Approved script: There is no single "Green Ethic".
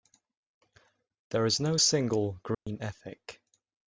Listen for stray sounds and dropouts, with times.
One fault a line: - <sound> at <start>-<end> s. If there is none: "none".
- dropout at 2.5-2.7 s